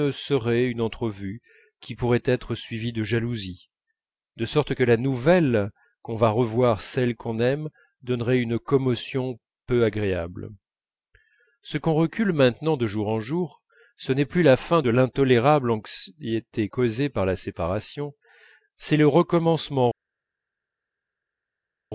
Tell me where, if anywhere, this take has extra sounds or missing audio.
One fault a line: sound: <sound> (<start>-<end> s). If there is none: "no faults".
no faults